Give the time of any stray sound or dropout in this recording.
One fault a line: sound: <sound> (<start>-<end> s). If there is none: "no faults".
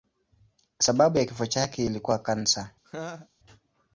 sound: laugh (2.8-3.3 s)